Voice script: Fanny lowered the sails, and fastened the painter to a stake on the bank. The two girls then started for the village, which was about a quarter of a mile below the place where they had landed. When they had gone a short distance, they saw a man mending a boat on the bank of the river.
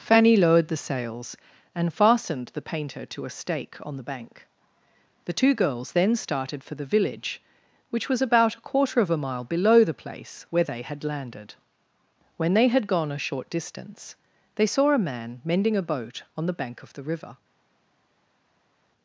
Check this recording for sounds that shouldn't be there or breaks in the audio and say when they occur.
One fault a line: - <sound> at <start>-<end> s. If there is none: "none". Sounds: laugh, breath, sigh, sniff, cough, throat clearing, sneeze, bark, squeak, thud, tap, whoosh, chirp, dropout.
none